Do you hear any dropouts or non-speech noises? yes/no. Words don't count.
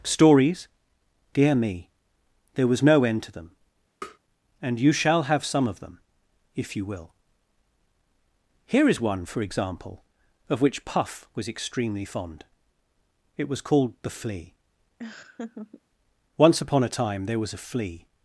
yes